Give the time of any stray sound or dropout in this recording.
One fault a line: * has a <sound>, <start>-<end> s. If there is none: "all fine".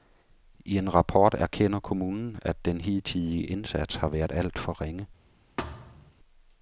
* has a thud, 5.6-6.1 s